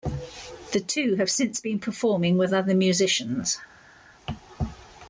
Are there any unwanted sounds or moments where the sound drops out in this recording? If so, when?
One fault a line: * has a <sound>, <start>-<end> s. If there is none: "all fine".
all fine